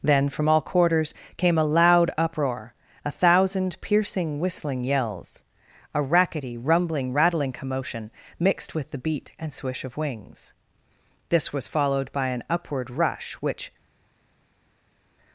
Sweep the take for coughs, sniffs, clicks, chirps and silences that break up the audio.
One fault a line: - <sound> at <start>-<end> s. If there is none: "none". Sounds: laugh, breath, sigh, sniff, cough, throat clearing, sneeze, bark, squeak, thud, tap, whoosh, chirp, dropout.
none